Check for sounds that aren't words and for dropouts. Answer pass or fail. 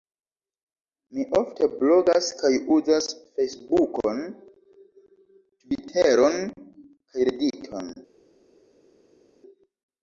pass